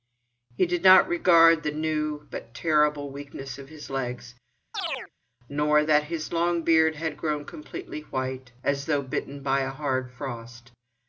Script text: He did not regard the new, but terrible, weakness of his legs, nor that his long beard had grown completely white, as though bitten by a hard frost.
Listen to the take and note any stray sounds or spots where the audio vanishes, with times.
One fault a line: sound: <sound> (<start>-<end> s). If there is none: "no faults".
sound: chirp (4.7-5.1 s)